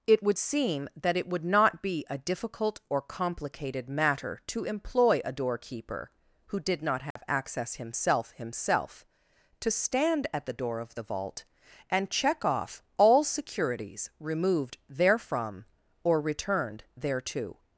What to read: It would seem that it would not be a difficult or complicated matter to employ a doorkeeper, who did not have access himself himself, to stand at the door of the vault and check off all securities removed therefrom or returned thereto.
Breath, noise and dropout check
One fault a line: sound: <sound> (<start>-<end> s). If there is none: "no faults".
sound: dropout (7.1-7.2 s)